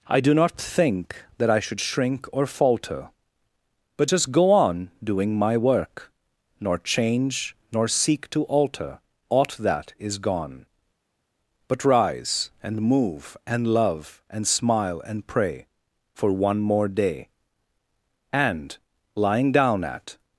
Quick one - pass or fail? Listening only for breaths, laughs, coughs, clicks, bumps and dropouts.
pass